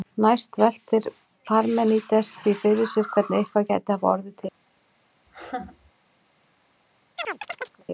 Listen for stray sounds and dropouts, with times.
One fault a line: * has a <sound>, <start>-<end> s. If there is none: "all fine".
* has a laugh, 5.3-5.9 s
* has a chirp, 7.2-7.8 s